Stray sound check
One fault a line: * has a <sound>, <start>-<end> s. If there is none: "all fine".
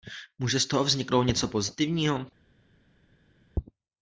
all fine